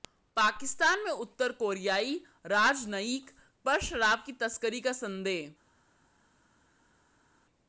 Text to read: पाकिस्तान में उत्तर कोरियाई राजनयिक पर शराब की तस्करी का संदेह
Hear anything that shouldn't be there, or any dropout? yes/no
no